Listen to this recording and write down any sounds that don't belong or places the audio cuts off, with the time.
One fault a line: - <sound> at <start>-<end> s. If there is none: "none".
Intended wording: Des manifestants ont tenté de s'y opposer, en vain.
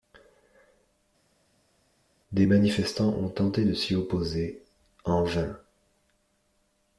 none